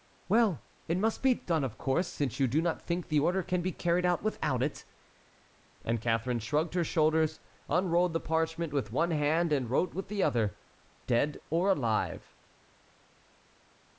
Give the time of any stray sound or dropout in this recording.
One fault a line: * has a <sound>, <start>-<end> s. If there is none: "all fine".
all fine